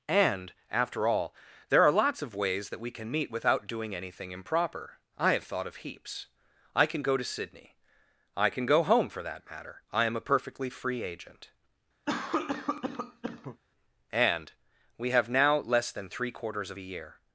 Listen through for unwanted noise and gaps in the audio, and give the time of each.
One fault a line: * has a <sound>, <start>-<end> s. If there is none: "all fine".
* has a cough, 12.1-13.6 s